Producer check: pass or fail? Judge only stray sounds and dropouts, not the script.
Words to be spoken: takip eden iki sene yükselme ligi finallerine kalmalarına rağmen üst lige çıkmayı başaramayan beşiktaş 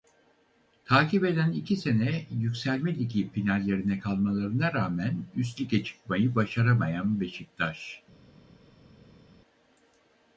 pass